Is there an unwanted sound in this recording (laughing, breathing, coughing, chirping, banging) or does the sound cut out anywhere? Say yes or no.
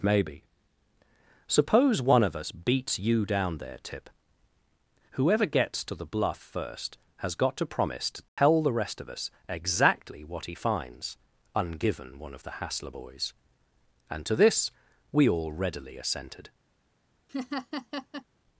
yes